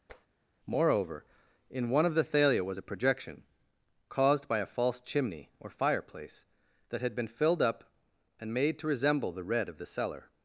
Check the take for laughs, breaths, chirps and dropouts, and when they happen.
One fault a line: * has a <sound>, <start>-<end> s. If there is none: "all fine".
* has a tap, 0.1-0.3 s